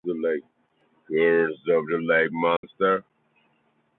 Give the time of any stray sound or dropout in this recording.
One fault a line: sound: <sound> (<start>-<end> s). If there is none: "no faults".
sound: dropout (2.6-2.6 s)